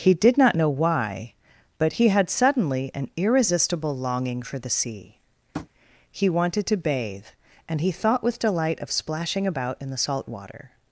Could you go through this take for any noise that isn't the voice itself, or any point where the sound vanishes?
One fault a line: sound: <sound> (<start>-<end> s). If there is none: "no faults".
sound: tap (5.5-5.7 s)